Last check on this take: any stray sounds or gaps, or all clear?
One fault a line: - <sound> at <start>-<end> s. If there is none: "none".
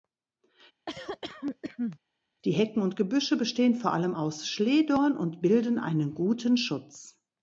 - cough at 0.9-2.0 s